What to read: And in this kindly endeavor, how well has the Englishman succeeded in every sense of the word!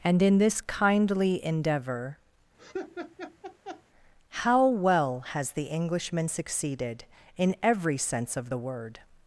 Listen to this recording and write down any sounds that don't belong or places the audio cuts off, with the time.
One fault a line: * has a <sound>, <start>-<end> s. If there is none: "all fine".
* has a laugh, 2.6-3.8 s